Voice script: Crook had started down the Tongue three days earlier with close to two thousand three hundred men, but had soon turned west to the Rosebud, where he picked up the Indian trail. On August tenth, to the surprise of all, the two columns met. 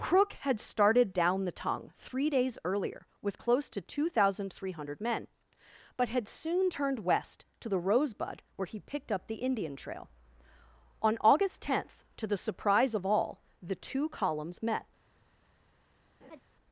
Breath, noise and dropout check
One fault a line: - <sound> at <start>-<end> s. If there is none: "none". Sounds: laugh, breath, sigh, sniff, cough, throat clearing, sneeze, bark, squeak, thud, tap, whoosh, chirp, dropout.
- laugh at 16.2-16.4 s